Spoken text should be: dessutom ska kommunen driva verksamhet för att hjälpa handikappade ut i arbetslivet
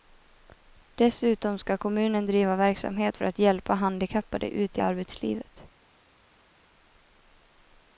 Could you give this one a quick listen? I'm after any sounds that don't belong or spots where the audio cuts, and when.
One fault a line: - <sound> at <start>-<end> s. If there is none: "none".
none